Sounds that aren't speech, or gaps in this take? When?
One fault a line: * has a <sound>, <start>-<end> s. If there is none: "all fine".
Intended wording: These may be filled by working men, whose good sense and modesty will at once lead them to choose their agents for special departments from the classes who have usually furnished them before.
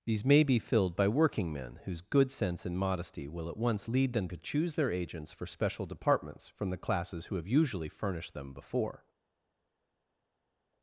all fine